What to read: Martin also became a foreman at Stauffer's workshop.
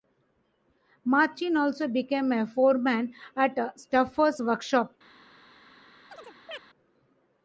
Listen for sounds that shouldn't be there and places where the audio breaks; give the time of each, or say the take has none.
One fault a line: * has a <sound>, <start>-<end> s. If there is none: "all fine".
* has a chirp, 6.1-6.6 s